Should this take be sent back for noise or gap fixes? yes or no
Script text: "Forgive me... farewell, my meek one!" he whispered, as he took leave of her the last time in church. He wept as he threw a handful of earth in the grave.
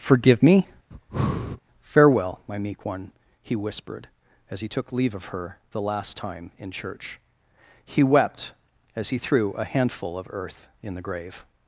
yes